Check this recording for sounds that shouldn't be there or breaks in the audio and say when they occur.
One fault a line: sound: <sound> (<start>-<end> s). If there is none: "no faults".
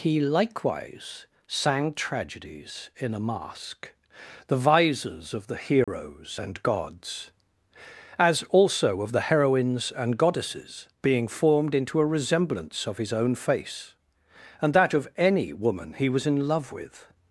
sound: dropout (5.8-5.9 s)